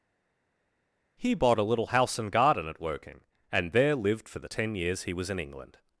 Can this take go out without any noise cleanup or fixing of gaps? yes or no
yes